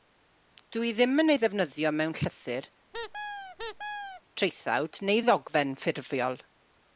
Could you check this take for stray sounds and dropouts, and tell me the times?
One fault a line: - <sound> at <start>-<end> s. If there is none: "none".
- squeak at 2.9-4.2 s